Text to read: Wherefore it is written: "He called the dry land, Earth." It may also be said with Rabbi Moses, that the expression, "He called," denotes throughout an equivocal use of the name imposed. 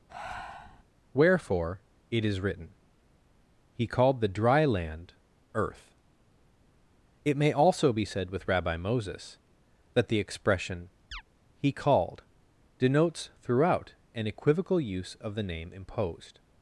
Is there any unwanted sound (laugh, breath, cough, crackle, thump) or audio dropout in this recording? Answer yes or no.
yes